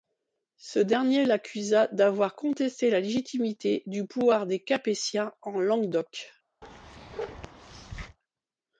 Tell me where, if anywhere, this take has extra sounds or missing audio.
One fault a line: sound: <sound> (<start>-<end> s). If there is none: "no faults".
sound: bark (6.6-8.2 s)